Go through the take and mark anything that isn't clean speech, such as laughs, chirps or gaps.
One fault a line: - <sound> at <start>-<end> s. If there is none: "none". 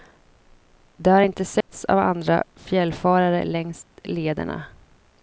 - dropout at 1.6-1.7 s